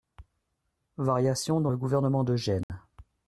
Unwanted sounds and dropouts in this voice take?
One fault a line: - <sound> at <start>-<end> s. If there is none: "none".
- dropout at 2.6-2.7 s